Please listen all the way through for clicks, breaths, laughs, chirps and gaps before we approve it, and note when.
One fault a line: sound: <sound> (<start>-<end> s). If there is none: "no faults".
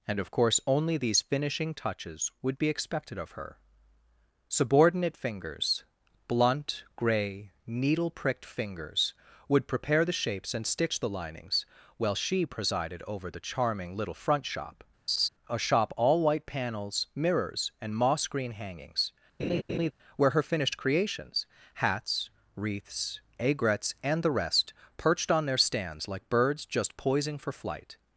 sound: laugh (15.1-15.3 s)
sound: laugh (19.4-19.9 s)